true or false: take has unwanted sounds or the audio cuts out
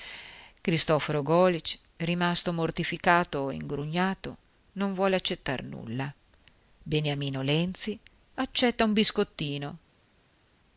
false